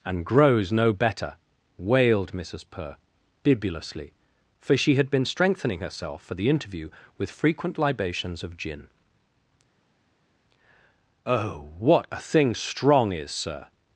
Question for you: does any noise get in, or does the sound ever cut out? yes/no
no